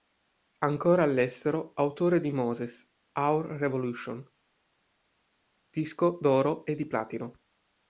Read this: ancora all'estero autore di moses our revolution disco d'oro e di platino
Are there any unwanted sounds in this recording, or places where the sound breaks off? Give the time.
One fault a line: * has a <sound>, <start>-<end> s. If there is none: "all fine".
all fine